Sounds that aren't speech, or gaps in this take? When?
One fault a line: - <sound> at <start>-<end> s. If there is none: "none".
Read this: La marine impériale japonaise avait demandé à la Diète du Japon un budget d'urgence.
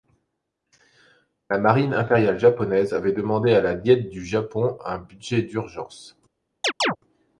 - chirp at 6.6-7.0 s